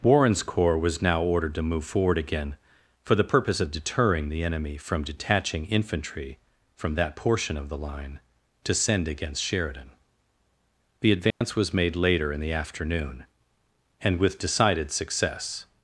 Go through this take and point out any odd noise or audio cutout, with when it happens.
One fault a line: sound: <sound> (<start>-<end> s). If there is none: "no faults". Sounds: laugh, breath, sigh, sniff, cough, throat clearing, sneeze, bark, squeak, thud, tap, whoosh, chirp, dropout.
sound: dropout (11.3-11.4 s)